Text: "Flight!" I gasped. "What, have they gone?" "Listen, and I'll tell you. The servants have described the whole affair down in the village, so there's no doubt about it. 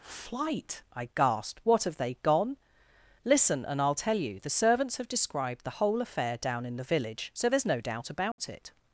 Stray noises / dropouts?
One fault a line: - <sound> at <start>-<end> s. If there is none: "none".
- dropout at 8.3-8.4 s